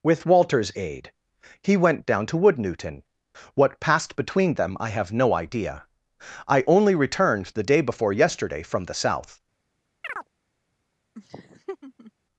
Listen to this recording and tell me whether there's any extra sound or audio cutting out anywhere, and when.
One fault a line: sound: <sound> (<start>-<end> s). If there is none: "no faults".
sound: chirp (10.0-10.3 s)
sound: laugh (11.1-12.1 s)